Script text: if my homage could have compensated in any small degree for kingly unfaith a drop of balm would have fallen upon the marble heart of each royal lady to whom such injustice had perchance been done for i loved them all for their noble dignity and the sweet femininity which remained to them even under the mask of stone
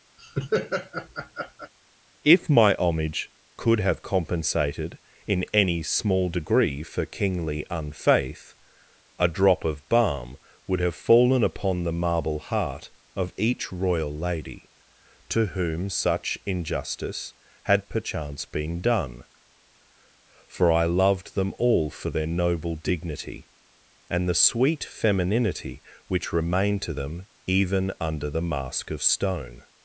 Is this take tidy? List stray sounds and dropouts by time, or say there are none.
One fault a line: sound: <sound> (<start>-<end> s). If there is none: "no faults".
sound: laugh (0.2-1.7 s)